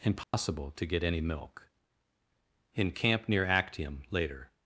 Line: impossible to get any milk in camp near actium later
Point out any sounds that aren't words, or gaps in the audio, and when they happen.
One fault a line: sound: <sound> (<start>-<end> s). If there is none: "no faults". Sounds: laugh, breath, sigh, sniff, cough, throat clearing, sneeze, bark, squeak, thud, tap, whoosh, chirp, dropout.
sound: dropout (0.2-0.3 s)